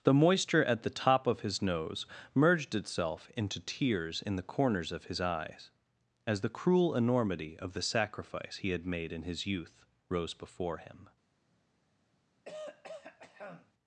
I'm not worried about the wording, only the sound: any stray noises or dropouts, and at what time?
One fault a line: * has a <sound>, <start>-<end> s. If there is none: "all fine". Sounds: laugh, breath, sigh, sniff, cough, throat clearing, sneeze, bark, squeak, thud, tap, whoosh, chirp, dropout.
* has a throat clearing, 12.4-13.7 s